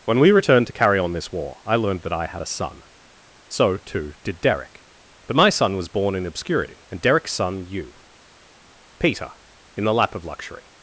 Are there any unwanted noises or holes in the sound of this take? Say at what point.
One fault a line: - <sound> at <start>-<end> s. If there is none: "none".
none